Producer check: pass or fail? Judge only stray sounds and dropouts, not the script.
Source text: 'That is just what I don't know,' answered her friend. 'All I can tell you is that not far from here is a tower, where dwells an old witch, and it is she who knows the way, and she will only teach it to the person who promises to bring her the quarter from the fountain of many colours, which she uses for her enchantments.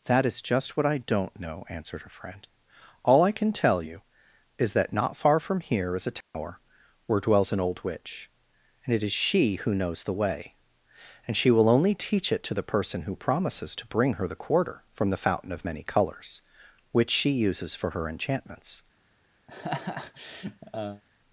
fail